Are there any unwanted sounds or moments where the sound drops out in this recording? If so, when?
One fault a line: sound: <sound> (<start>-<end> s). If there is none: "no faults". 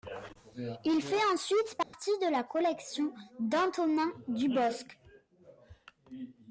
sound: dropout (1.8-1.9 s)